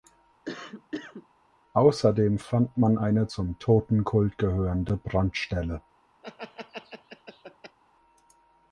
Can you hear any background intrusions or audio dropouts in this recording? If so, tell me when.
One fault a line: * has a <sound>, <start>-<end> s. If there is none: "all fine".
* has a cough, 0.5-1.3 s
* has a laugh, 6.2-7.8 s